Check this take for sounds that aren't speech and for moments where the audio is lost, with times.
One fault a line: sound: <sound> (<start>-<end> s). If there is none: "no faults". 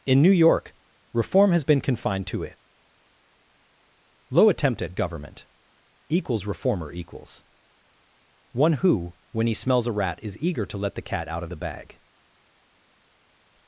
no faults